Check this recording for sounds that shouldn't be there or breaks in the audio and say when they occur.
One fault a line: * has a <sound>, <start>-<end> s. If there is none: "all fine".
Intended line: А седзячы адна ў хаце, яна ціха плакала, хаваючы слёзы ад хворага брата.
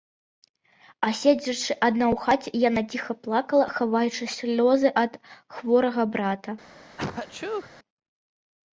* has a sneeze, 7.0-7.7 s